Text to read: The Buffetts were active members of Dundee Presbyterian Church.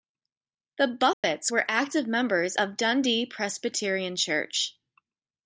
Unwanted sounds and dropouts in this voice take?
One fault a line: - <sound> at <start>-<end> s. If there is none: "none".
- dropout at 1.1-1.2 s